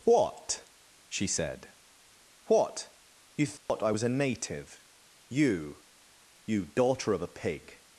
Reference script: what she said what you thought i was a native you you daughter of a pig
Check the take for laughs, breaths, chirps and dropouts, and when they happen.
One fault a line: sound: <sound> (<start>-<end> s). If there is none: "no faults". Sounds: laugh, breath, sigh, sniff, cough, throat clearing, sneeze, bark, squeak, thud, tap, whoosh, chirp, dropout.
sound: dropout (3.6-3.7 s)